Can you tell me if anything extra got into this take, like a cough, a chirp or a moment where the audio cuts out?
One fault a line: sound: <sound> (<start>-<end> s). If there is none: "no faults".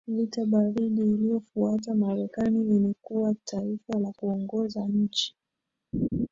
sound: laugh (5.9-6.3 s)